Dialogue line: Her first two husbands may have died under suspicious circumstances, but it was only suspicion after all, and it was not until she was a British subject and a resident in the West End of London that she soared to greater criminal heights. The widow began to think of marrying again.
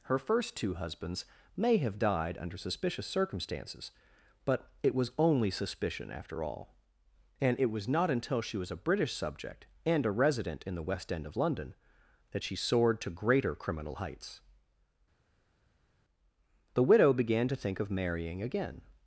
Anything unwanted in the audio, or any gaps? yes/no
no